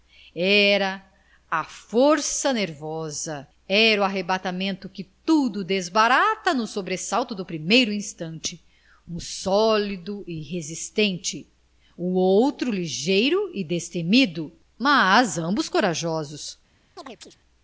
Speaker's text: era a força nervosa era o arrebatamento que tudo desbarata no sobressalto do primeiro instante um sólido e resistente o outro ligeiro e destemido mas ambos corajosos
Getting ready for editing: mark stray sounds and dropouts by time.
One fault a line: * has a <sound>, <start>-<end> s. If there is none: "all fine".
* has a chirp, 17.0-17.4 s